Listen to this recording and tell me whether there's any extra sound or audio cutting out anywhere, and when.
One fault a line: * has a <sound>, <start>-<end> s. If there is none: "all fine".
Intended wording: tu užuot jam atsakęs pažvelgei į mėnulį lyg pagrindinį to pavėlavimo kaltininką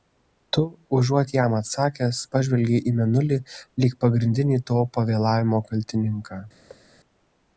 * has a thud, 6.7-6.9 s